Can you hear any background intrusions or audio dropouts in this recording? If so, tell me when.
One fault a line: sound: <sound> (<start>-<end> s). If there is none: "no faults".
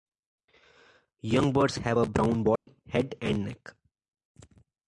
sound: dropout (2.6-2.7 s)